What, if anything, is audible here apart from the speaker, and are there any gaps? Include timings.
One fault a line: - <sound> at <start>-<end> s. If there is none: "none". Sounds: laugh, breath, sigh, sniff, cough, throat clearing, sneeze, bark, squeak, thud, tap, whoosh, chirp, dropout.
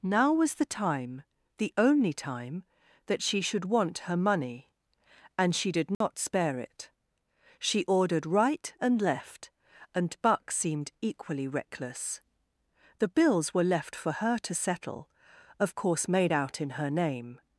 - dropout at 5.9-6.0 s